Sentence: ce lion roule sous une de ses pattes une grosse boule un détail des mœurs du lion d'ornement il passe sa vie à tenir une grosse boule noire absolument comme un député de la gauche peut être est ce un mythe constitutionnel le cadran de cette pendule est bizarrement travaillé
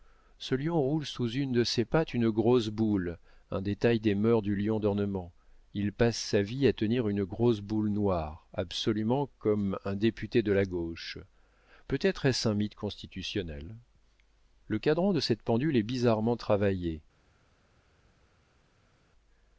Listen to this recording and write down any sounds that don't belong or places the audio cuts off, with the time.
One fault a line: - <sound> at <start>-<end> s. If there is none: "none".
none